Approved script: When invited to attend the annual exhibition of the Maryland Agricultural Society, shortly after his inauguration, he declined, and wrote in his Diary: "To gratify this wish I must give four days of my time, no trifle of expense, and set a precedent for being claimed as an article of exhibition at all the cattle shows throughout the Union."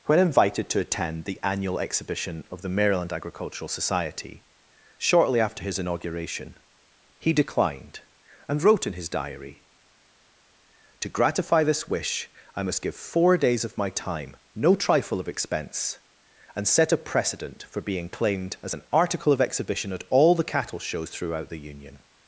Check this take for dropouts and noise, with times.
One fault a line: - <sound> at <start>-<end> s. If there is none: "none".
none